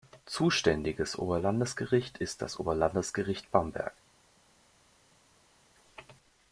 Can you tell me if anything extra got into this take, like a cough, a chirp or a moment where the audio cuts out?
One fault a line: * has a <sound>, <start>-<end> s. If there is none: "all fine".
all fine